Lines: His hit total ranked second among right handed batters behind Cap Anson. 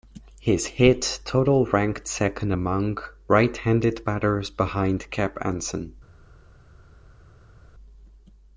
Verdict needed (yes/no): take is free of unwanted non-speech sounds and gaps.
yes